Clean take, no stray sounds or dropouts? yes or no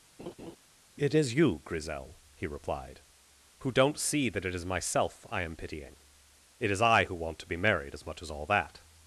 no